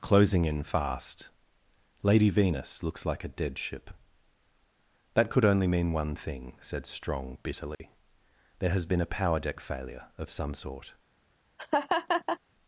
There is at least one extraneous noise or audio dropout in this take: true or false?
true